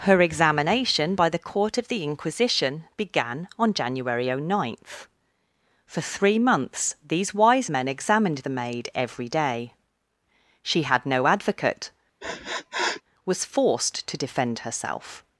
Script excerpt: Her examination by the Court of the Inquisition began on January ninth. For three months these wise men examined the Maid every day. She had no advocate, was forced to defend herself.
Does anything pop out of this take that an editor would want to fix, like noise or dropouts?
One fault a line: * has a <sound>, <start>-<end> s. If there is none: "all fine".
* has a sniff, 12.2-13.0 s